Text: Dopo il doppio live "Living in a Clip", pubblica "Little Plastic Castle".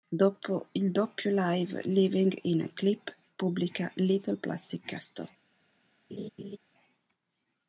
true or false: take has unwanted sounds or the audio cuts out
true